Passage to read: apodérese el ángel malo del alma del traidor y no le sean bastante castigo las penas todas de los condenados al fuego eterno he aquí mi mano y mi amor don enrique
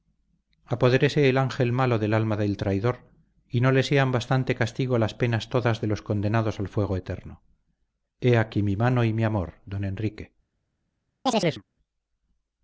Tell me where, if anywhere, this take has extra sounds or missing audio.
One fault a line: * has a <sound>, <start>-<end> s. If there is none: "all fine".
* has a chirp, 11.3-11.6 s